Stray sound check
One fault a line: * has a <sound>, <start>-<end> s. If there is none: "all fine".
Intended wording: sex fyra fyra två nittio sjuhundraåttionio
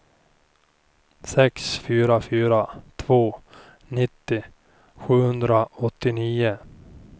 all fine